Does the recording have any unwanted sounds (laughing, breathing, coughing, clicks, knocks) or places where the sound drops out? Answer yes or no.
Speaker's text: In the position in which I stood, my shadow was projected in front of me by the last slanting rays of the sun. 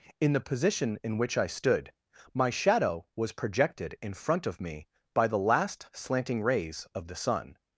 no